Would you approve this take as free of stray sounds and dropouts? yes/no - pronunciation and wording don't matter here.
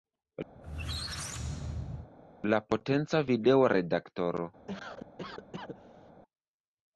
no